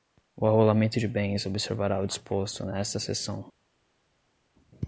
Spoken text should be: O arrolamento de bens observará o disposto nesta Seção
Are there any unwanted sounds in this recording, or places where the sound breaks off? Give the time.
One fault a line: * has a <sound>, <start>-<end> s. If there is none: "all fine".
all fine